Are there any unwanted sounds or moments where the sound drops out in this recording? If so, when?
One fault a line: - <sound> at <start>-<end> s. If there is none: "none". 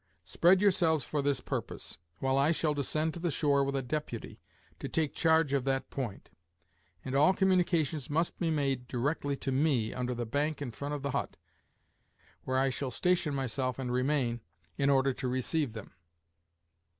none